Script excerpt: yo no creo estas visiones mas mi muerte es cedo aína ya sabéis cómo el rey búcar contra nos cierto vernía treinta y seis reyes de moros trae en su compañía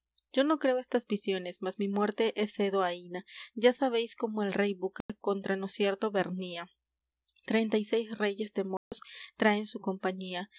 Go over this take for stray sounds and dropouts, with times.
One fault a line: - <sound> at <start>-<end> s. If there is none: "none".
- dropout at 5.0-5.1 s
- dropout at 8.8-8.9 s